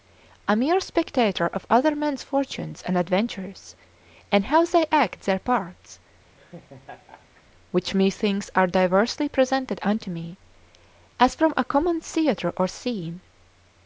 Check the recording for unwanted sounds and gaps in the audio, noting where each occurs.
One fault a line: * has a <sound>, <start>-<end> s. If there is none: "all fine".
* has a laugh, 6.4-7.4 s